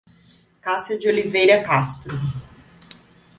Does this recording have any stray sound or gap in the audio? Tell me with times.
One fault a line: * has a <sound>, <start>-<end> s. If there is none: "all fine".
all fine